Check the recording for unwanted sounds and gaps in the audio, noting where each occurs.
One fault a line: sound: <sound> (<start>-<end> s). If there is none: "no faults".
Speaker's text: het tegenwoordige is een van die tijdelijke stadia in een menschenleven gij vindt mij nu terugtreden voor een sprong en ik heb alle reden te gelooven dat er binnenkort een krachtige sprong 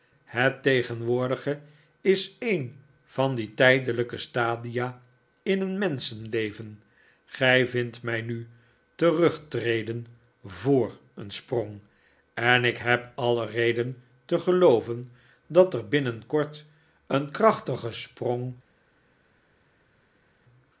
no faults